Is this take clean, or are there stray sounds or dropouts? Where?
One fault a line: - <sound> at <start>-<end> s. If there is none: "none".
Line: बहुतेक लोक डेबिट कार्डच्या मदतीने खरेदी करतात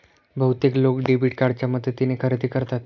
none